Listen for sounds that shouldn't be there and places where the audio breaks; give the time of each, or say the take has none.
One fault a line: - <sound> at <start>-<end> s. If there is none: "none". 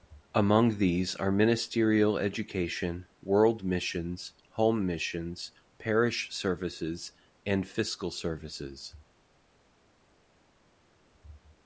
none